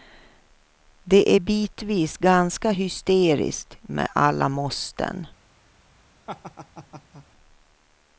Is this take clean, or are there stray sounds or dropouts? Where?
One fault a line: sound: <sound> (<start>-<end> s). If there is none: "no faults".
sound: laugh (6.3-7.3 s)